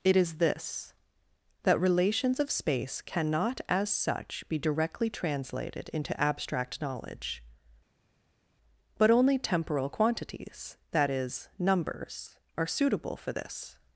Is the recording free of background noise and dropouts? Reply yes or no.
yes